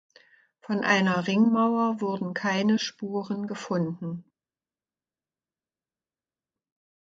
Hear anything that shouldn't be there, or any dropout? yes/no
no